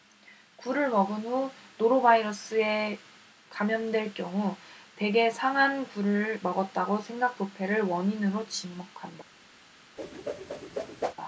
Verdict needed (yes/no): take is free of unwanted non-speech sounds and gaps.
no